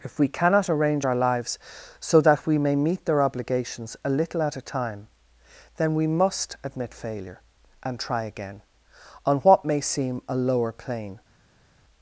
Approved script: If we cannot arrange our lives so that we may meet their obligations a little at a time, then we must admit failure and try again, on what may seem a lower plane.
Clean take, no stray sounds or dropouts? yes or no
yes